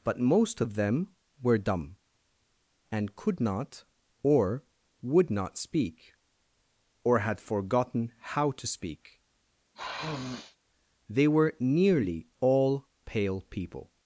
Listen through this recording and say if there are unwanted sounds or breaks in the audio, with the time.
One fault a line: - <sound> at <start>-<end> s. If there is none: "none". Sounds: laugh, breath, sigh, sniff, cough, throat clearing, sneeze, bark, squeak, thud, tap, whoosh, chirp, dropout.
- sniff at 9.7-10.6 s